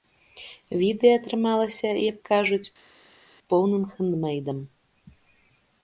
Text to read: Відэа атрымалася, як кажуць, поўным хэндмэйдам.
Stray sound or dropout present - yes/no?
no